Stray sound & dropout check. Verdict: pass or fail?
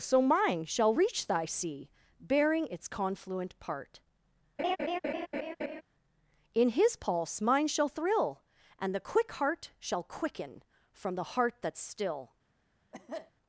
fail